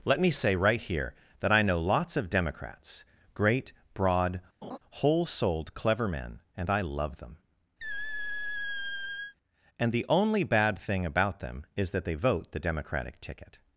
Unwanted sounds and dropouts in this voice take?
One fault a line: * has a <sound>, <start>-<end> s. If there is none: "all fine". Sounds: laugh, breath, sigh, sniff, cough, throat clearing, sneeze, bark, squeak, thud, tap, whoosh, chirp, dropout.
* has a laugh, 4.6-4.8 s
* has a squeak, 7.8-9.3 s